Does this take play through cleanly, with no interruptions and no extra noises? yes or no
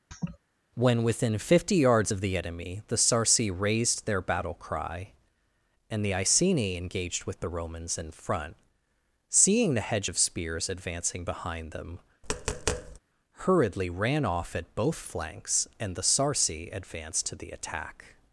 no